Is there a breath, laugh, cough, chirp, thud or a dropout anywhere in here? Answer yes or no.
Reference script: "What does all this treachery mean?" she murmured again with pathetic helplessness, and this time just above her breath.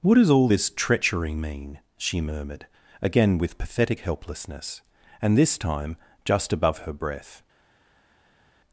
no